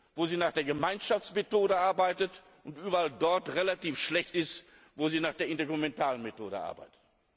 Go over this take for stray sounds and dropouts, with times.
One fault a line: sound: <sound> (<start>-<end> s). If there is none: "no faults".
no faults